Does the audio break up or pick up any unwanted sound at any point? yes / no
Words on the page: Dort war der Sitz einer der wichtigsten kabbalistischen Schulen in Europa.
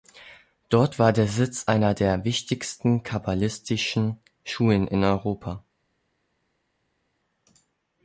no